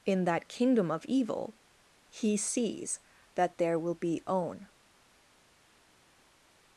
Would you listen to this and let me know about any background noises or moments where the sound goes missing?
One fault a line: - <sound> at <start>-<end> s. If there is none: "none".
none